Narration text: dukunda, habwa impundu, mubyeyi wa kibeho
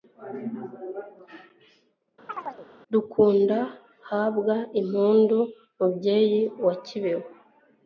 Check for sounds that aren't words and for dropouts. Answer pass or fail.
fail